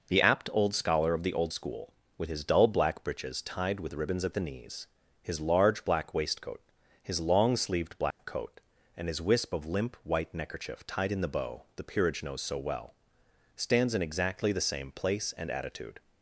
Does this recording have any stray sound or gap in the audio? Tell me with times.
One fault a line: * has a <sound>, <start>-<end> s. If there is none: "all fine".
* has a dropout, 8.1-8.2 s